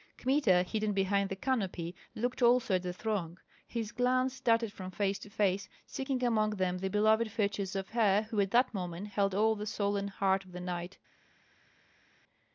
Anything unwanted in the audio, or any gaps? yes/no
no